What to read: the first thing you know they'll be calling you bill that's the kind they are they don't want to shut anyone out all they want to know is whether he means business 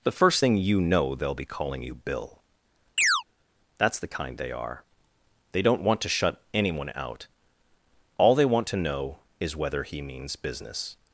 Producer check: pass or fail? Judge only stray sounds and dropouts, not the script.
fail